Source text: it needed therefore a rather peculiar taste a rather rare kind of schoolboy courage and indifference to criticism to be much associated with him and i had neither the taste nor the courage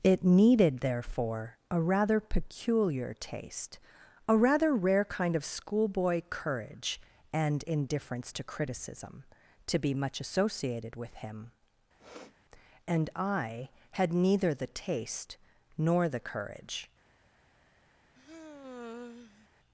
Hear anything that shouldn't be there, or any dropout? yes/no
yes